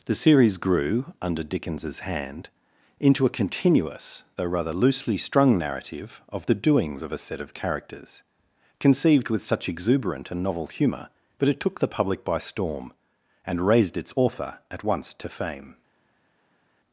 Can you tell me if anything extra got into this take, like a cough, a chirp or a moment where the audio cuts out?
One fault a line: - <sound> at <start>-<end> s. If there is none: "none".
none